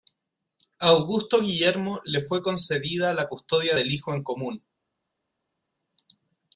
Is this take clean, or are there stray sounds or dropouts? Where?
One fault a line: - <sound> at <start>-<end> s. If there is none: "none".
none